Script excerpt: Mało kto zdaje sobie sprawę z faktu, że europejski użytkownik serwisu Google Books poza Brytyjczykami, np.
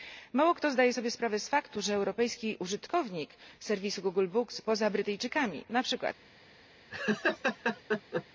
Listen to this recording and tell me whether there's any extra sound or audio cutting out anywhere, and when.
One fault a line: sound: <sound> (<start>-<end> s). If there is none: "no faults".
sound: laugh (6.9-8.2 s)